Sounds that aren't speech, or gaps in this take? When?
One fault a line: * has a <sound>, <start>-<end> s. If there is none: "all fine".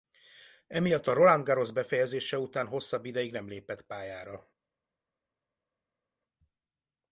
all fine